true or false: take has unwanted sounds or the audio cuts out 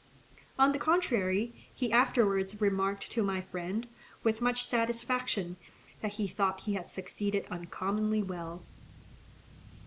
false